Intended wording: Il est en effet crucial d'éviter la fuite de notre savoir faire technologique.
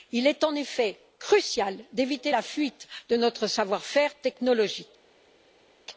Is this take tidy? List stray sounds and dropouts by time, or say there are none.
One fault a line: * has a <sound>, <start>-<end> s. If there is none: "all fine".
all fine